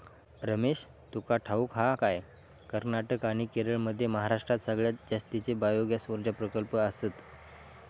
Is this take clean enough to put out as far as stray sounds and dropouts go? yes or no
yes